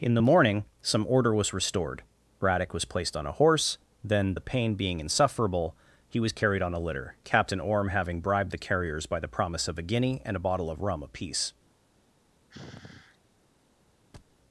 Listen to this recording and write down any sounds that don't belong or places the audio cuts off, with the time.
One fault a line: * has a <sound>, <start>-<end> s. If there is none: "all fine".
* has a sigh, 12.5-13.2 s
* has a thud, 14.1-14.4 s